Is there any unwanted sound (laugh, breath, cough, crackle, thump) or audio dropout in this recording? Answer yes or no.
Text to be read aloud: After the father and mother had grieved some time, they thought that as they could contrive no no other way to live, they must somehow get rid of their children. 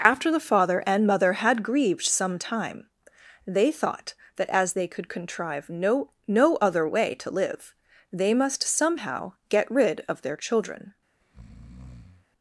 yes